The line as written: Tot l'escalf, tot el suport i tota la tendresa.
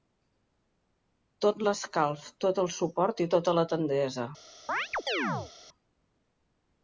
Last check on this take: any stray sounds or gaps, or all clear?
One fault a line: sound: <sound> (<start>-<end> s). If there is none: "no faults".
sound: chirp (4.7-5.5 s)